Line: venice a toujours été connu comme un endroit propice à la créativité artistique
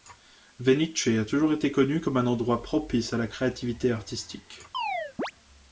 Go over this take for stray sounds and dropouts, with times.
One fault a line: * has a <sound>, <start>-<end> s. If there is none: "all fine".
* has a chirp, 4.7-5.3 s